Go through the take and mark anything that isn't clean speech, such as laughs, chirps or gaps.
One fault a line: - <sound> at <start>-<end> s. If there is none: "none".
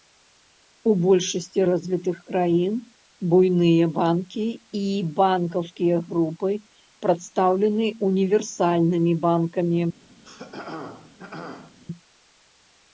- throat clearing at 10.2-11.8 s